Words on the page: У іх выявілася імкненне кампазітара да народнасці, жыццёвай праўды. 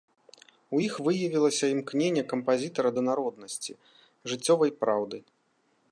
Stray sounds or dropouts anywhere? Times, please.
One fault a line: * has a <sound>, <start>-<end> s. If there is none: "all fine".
all fine